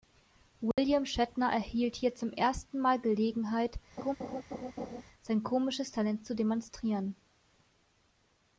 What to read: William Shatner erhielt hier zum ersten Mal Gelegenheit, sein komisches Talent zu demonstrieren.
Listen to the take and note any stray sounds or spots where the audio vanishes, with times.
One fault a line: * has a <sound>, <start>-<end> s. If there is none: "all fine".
* has a dropout, 0.7-0.8 s
* has a laugh, 4.0-5.0 s